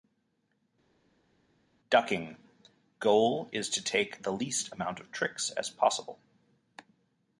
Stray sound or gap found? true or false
false